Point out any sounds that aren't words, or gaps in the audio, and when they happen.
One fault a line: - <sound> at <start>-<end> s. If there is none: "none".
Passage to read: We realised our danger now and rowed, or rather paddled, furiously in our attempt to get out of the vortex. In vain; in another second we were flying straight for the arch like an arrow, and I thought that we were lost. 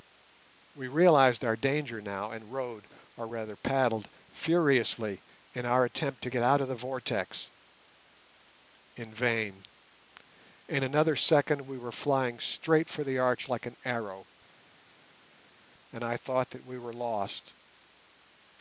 none